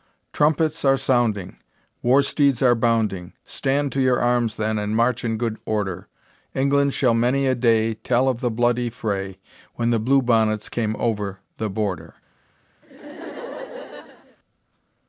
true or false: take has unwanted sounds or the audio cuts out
true